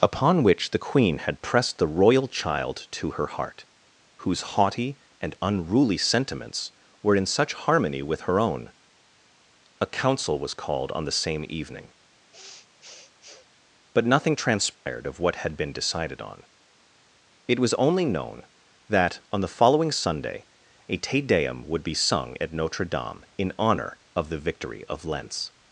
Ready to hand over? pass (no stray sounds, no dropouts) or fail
fail